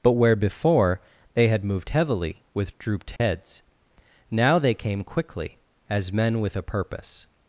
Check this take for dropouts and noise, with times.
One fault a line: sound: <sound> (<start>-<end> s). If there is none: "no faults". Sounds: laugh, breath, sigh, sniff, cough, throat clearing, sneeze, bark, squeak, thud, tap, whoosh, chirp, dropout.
sound: dropout (3.2-3.2 s)